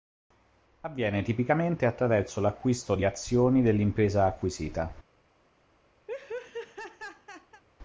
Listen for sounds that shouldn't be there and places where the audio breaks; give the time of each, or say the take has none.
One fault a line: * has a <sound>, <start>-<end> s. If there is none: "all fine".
* has a laugh, 6.1-7.6 s